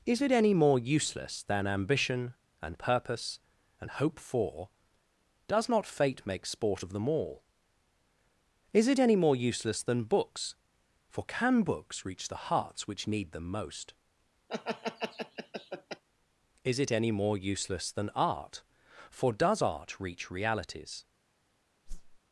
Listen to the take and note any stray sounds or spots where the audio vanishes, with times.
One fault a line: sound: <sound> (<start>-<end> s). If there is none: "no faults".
sound: laugh (14.5-16.0 s)
sound: whoosh (21.9-22.2 s)